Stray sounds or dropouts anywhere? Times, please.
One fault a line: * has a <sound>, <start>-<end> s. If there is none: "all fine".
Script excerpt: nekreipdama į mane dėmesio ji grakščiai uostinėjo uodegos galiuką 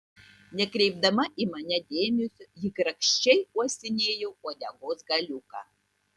all fine